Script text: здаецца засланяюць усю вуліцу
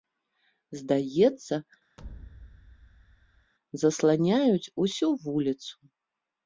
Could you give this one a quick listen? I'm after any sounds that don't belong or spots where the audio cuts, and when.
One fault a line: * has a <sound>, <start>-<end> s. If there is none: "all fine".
* has a thud, 2.0-3.5 s